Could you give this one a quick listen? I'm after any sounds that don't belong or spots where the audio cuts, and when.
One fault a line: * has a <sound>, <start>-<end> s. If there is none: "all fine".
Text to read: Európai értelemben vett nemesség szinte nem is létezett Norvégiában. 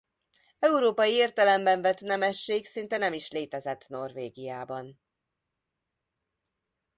all fine